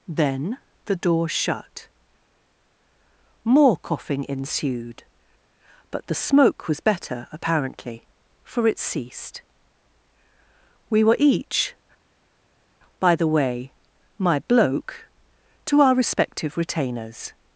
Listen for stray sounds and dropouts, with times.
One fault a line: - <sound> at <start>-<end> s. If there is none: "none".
none